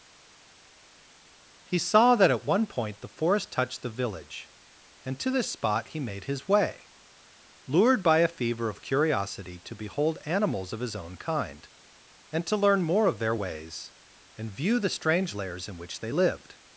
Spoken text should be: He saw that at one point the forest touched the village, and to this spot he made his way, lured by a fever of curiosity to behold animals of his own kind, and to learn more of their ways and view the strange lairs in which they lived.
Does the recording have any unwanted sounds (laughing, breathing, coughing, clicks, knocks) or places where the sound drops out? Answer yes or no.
no